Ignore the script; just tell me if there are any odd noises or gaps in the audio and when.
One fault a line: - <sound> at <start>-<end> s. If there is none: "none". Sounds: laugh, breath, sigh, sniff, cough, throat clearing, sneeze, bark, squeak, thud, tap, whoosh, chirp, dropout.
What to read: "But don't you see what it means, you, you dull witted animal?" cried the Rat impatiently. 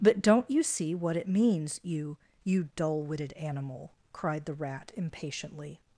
none